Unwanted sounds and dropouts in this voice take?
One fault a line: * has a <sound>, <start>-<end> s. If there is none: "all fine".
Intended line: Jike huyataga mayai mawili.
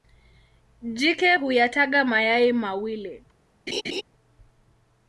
* has a laugh, 3.7-4.0 s